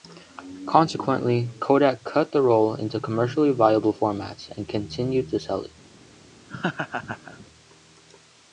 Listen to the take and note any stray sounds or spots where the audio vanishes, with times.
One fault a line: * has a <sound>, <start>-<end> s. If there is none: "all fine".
* has a laugh, 6.5-7.5 s